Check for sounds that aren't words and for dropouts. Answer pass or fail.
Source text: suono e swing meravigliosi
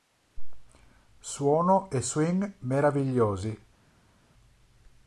pass